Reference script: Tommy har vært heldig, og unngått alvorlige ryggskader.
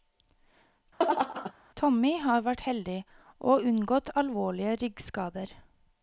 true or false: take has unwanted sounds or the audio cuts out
true